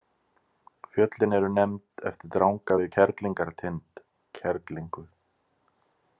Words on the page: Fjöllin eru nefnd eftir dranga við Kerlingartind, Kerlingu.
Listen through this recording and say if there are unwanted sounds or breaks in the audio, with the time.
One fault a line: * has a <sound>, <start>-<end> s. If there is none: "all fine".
all fine